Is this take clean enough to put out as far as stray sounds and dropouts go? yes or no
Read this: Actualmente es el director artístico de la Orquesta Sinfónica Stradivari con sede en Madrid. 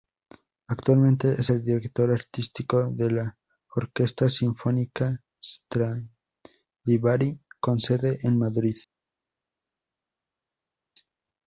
yes